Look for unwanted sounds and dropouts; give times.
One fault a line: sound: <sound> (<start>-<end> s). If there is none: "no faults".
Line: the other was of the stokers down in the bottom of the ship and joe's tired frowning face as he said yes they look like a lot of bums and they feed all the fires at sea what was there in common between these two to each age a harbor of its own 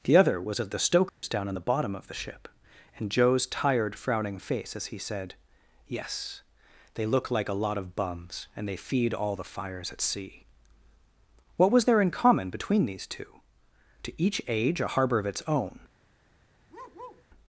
sound: dropout (1.1-1.2 s)
sound: bark (16.7-17.2 s)